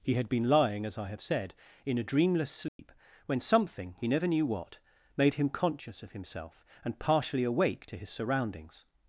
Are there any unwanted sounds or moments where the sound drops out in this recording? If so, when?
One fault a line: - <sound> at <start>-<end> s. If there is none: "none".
- dropout at 2.7-2.8 s